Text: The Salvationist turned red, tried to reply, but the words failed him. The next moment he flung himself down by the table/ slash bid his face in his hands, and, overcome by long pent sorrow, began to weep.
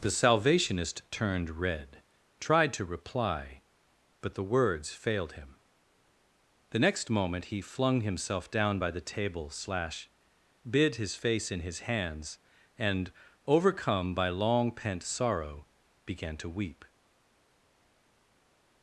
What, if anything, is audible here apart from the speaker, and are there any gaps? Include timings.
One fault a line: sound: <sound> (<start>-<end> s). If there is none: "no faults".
no faults